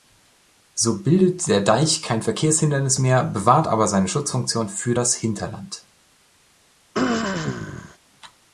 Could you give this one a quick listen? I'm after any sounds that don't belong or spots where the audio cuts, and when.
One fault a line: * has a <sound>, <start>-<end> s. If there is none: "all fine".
* has a throat clearing, 6.9-8.0 s